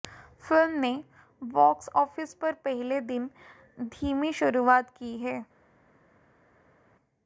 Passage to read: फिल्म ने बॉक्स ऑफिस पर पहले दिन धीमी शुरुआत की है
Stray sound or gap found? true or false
false